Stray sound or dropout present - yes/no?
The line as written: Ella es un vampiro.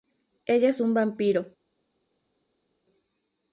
no